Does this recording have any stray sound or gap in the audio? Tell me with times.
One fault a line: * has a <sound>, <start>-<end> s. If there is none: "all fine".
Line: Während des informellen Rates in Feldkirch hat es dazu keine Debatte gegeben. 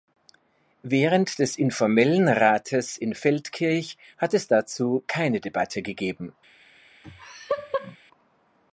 * has a laugh, 7.0-8.0 s